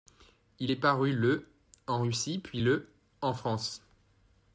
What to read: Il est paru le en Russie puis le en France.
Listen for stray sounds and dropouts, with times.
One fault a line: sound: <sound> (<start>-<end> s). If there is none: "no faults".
no faults